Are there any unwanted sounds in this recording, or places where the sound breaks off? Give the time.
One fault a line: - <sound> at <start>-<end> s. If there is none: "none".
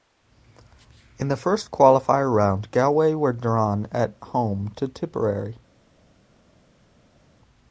none